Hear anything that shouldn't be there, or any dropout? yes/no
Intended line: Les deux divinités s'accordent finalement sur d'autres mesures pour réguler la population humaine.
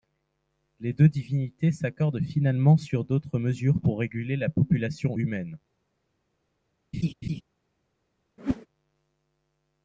yes